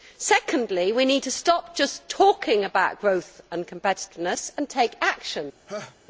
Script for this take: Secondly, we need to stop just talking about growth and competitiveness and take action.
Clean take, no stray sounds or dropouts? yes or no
no